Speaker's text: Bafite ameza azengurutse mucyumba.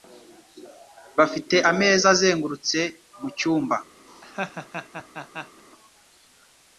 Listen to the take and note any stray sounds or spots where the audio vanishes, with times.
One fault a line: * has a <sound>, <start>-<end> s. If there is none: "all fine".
* has a laugh, 4.1-5.6 s